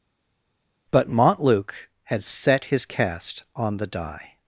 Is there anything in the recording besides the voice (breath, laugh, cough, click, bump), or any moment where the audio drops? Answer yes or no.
no